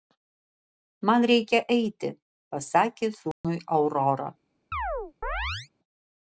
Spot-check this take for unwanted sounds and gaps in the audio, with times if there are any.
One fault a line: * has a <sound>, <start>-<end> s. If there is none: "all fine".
* has a dropout, 3.3-3.4 s
* has a chirp, 4.7-5.7 s